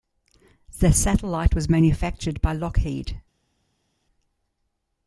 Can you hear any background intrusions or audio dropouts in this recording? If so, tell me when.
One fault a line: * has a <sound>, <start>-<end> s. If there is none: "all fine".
all fine